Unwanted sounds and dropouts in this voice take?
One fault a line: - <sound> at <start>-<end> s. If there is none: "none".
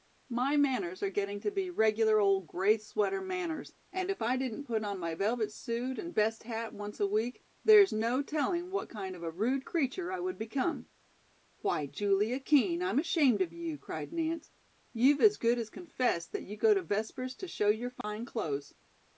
- dropout at 18.0-18.0 s